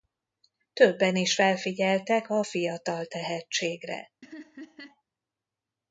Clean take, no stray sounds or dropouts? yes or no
no